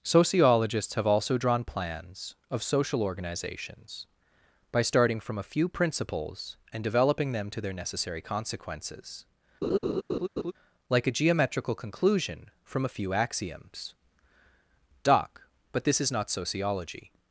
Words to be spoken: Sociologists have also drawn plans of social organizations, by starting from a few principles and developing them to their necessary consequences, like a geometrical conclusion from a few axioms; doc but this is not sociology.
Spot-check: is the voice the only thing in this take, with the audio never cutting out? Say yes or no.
no